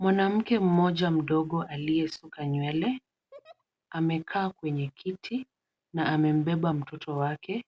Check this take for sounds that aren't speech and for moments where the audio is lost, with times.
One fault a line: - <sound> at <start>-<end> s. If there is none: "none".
- laugh at 3.3-3.6 s